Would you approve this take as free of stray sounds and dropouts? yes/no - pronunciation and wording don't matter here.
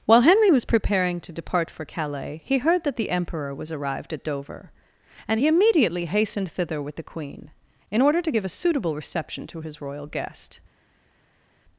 yes